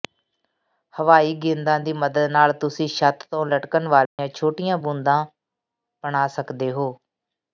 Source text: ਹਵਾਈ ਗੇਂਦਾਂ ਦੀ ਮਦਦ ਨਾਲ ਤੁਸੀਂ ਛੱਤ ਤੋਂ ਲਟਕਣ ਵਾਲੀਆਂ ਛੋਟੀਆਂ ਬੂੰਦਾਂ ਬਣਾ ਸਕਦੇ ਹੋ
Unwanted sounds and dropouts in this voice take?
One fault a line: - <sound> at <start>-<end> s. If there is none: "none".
- dropout at 4.1-4.2 s